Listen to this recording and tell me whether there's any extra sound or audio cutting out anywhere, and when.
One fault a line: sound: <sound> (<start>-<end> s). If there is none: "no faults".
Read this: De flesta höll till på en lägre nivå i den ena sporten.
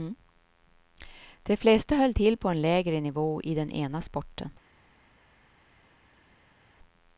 no faults